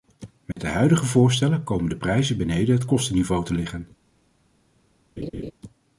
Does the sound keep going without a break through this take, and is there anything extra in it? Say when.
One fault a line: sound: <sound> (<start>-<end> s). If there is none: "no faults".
sound: dropout (0.5-0.6 s)
sound: laugh (5.2-5.5 s)